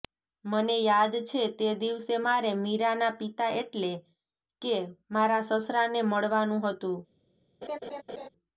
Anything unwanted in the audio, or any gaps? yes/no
yes